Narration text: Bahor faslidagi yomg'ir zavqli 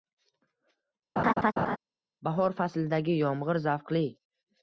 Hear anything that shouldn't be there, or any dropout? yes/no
yes